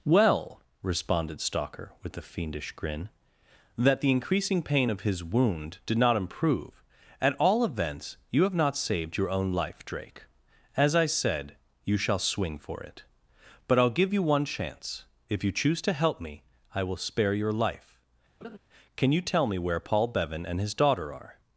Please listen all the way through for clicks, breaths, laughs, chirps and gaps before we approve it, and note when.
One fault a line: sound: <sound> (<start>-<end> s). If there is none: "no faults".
sound: laugh (18.4-18.6 s)